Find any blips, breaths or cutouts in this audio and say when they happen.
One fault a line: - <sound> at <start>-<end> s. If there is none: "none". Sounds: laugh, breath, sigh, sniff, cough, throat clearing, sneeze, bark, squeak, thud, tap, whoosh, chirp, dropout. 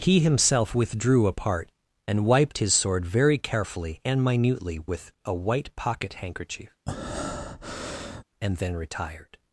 - breath at 6.9-8.2 s